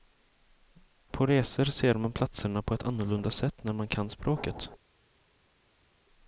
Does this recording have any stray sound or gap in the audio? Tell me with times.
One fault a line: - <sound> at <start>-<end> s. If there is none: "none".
none